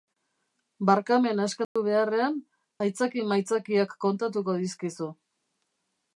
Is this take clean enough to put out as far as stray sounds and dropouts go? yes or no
no